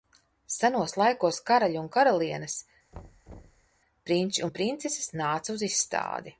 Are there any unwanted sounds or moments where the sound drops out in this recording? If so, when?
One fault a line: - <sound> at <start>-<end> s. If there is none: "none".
- thud at 2.9-3.7 s